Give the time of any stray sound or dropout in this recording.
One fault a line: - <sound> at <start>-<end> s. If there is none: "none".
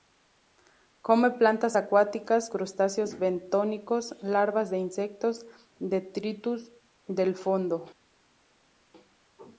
none